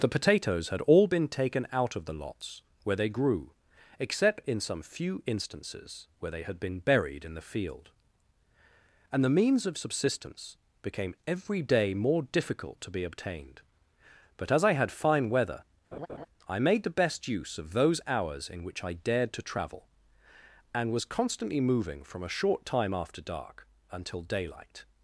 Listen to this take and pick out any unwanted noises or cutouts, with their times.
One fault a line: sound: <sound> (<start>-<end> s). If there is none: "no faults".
sound: laugh (15.9-16.3 s)